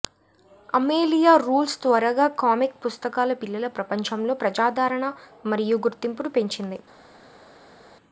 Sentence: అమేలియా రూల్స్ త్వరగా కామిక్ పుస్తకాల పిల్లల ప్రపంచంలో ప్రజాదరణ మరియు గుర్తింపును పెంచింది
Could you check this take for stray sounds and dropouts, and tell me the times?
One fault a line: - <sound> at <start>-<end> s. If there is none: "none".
none